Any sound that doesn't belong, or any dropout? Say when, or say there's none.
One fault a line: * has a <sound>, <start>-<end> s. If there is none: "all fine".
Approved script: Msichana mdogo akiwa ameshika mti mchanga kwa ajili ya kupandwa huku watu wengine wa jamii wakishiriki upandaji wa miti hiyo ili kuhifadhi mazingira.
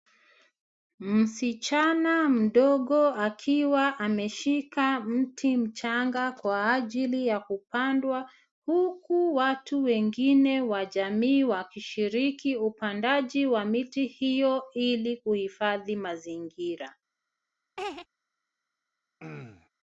* has a laugh, 17.8-18.1 s
* has a throat clearing, 19.2-19.7 s